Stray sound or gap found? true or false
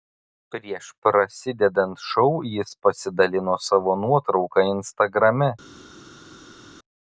false